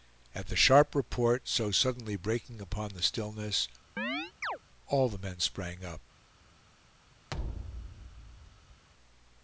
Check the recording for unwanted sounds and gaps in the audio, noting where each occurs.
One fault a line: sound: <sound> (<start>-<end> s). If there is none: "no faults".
sound: chirp (4.0-4.6 s)
sound: thud (7.3-8.8 s)